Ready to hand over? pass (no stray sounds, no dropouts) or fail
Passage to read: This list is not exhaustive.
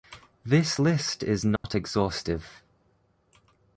fail